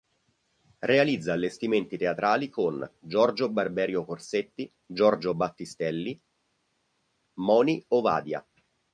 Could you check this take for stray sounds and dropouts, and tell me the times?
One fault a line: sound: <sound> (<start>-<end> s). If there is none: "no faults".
no faults